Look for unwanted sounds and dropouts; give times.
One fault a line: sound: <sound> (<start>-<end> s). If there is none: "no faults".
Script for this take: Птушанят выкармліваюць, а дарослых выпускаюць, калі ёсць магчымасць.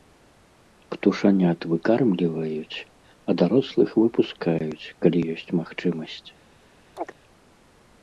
sound: chirp (7.0-7.1 s)